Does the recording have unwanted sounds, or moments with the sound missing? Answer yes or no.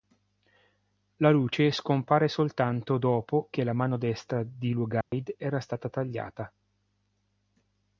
yes